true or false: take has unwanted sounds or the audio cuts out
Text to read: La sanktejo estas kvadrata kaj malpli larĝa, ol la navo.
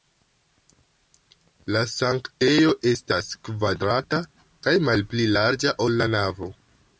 false